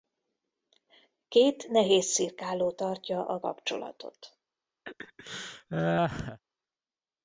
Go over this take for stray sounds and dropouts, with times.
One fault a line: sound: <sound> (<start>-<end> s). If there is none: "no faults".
sound: laugh (4.9-6.4 s)